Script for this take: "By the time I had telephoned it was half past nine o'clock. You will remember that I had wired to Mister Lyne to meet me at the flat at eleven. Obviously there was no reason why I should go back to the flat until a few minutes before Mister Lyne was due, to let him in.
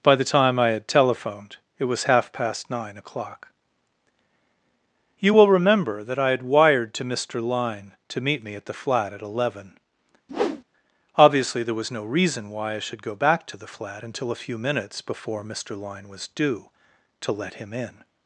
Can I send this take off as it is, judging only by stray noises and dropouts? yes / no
no